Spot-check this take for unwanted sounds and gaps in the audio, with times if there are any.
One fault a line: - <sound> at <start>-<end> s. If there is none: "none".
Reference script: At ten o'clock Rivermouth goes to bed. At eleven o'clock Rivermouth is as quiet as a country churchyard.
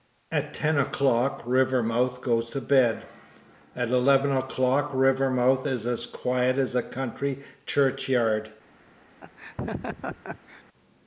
- laugh at 9.2-10.6 s